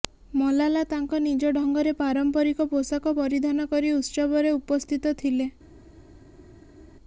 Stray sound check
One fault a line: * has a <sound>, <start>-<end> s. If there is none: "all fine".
all fine